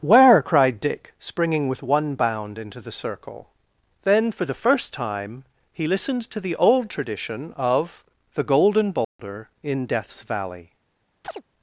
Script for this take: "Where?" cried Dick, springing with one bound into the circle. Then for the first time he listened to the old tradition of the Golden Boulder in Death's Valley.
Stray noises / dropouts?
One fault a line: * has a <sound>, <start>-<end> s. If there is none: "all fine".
* has a dropout, 9.0-9.2 s
* has a chirp, 11.2-11.4 s